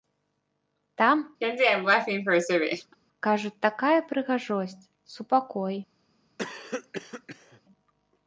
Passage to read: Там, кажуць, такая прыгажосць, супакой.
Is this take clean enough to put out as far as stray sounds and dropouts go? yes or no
no